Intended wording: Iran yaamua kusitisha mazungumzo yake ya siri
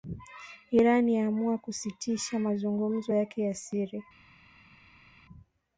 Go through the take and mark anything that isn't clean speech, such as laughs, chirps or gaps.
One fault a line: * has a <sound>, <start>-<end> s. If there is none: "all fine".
all fine